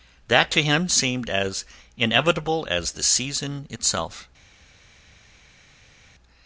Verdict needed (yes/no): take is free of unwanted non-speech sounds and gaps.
yes